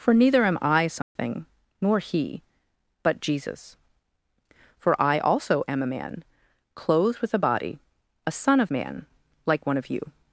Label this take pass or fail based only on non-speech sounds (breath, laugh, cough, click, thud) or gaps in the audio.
fail